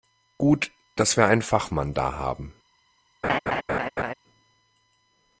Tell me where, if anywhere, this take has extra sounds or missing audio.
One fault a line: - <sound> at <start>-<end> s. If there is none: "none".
- laugh at 3.2-4.1 s